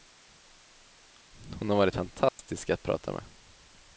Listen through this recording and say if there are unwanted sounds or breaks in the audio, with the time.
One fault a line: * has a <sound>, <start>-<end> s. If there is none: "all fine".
* has a dropout, 2.3-2.4 s